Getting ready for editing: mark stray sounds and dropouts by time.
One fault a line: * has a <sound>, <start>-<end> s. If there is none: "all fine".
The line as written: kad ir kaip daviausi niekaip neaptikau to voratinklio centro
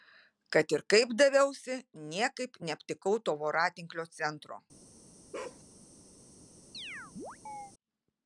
* has a bark, 5.3-5.6 s
* has a chirp, 6.7-7.7 s